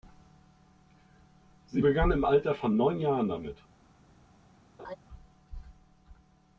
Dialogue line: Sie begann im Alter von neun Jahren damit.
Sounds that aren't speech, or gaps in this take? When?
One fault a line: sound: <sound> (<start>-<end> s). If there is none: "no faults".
sound: laugh (4.8-5.0 s)